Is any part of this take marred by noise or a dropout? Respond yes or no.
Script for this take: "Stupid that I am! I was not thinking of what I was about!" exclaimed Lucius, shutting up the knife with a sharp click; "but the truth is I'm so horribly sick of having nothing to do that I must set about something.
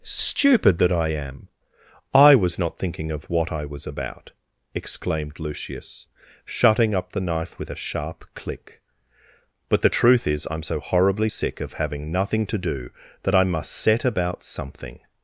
no